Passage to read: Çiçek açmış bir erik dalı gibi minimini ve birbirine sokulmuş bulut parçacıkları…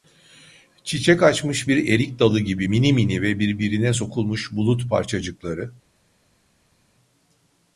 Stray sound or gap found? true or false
false